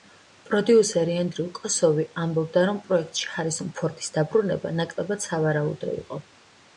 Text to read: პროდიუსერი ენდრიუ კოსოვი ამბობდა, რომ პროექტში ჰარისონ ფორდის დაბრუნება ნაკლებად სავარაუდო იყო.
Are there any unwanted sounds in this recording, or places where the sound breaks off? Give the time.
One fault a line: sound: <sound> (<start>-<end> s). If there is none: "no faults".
no faults